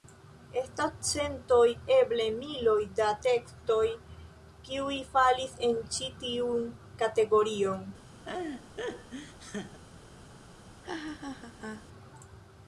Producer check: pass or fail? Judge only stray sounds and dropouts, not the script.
fail